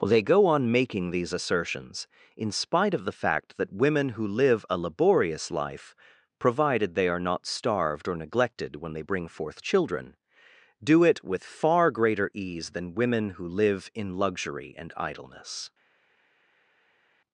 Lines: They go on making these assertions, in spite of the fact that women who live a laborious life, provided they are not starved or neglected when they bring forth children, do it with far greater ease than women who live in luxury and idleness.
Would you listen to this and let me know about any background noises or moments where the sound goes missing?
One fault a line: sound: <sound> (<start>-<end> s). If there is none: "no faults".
no faults